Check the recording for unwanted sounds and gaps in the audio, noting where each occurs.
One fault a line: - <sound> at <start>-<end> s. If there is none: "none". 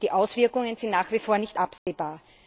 - dropout at 1.8-1.9 s